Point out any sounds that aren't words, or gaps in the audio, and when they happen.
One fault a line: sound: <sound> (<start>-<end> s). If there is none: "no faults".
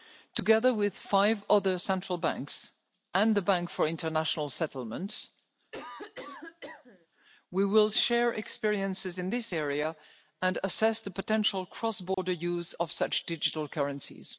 sound: cough (5.7-7.1 s)
sound: dropout (12.1-12.2 s)